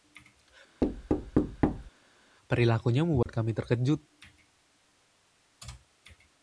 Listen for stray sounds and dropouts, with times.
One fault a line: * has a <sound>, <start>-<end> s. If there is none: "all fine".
* has a thud, 0.8-1.9 s
* has a dropout, 3.2-3.3 s